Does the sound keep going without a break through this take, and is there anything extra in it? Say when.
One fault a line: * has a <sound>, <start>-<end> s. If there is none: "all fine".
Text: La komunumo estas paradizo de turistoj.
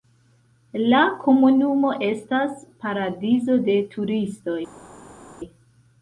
all fine